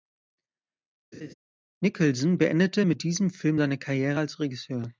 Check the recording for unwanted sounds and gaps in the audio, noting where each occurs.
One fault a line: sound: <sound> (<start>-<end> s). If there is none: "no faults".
sound: laugh (1.1-1.3 s)